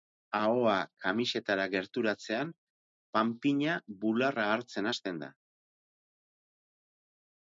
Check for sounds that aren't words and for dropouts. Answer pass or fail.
pass